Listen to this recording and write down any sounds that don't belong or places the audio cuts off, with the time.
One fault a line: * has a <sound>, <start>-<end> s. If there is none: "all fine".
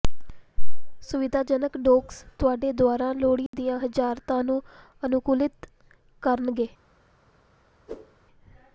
* has a dropout, 3.5-3.5 s
* has a whoosh, 7.9-8.2 s